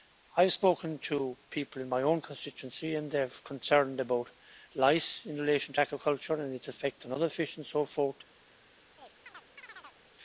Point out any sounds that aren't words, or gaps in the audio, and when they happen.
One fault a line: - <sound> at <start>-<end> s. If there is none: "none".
- chirp at 9.0-10.0 s